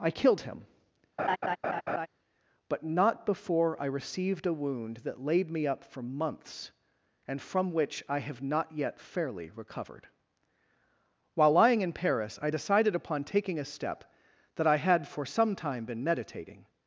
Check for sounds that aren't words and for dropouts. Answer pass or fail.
fail